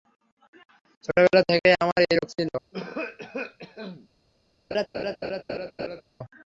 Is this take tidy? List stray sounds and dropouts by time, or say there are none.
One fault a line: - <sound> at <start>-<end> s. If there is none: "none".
- cough at 2.7-4.1 s
- laugh at 4.7-6.0 s